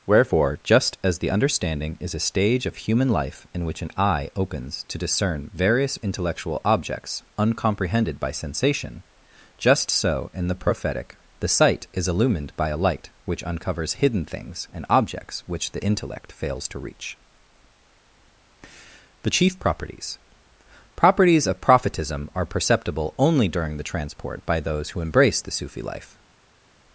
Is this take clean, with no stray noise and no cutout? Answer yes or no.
yes